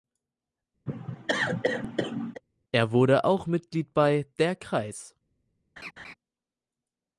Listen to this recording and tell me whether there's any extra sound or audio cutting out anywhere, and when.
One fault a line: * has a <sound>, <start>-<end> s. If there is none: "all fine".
* has a cough, 0.9-2.4 s
* has a laugh, 5.8-6.1 s